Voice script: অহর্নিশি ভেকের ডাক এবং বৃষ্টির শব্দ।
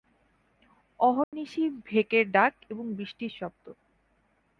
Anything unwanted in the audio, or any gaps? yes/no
yes